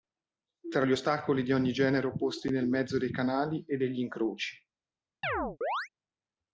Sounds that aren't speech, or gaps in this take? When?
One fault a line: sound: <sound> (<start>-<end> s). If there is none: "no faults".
sound: chirp (5.2-5.9 s)